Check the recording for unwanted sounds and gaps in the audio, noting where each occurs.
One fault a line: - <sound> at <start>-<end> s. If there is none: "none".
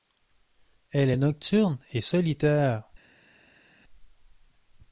none